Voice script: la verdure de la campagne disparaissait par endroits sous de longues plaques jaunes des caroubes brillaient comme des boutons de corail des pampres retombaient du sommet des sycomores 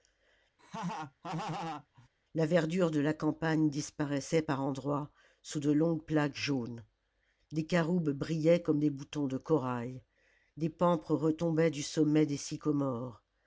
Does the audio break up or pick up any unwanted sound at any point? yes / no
yes